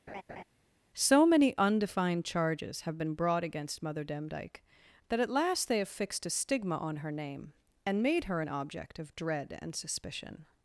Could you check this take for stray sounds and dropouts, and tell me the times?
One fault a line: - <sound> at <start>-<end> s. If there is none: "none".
- laugh at 0.1-0.4 s